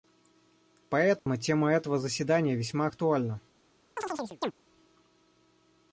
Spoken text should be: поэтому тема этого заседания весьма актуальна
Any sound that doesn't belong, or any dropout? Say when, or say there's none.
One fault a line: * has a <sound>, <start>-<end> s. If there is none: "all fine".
* has a dropout, 1.2-1.3 s
* has a chirp, 4.0-4.5 s